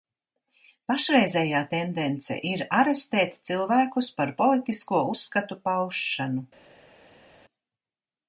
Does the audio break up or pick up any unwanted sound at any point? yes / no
no